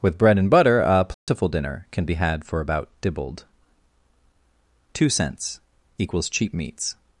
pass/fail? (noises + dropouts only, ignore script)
fail